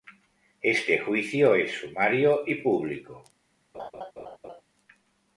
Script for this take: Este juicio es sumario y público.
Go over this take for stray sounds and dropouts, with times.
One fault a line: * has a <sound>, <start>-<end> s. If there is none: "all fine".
* has a laugh, 3.7-4.6 s